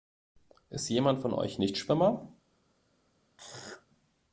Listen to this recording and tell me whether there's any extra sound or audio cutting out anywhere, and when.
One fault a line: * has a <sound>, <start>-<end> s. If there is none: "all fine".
* has a throat clearing, 3.4-3.9 s